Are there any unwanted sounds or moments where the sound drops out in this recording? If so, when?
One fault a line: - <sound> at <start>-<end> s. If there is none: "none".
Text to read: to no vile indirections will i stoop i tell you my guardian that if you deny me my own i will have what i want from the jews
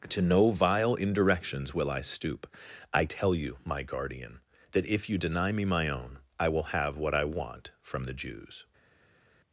none